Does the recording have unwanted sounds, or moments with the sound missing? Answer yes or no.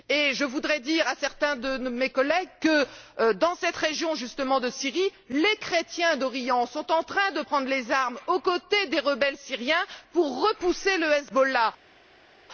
no